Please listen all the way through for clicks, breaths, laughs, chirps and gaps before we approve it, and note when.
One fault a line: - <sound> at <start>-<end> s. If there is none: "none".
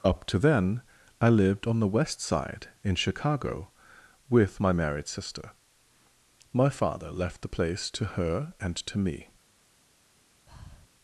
- breath at 10.5-10.9 s